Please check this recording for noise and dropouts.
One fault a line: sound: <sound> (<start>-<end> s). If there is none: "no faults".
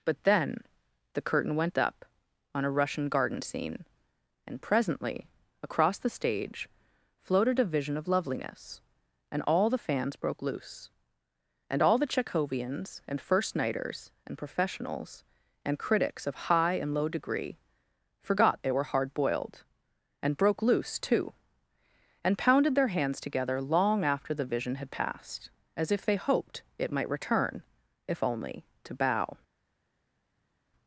no faults